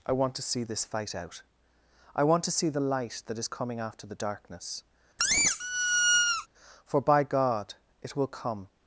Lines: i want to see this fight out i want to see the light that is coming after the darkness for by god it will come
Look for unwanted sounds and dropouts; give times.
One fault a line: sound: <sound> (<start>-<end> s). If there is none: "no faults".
sound: squeak (5.2-6.5 s)